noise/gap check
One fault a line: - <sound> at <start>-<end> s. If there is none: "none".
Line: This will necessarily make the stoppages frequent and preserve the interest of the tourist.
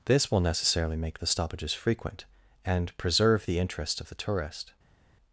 none